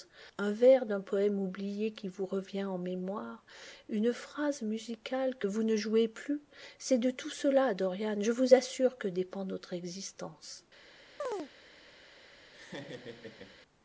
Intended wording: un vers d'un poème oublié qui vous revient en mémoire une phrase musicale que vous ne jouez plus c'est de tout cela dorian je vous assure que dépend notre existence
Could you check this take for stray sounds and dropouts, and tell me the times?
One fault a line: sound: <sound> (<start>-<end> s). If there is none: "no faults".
sound: chirp (11.2-11.5 s)
sound: laugh (12.5-13.6 s)